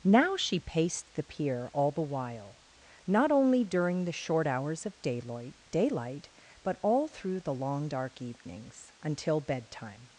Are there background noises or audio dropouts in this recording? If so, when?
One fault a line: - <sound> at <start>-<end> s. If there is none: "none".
none